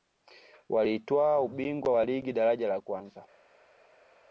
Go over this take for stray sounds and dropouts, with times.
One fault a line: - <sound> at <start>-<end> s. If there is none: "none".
none